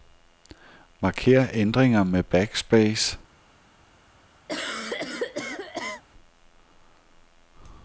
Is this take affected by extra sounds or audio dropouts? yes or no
yes